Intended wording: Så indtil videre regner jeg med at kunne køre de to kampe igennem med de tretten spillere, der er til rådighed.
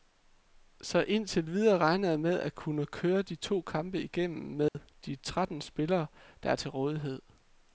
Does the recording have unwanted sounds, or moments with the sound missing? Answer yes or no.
yes